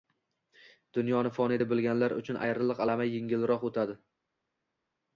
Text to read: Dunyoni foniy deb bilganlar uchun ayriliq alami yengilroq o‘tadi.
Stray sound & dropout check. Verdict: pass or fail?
pass